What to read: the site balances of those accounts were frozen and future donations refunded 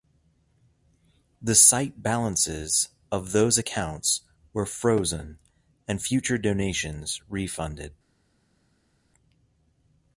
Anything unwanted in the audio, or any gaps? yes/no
no